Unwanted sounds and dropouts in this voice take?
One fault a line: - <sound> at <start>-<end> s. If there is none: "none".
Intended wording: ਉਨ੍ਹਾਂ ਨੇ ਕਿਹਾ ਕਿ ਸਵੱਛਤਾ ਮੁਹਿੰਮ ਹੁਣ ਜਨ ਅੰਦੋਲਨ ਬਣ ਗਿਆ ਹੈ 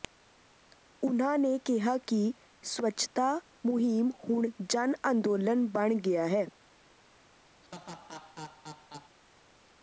- laugh at 7.6-9.2 s